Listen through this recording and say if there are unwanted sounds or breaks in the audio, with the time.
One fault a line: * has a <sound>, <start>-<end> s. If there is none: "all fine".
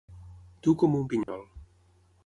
* has a dropout, 1.2-1.3 s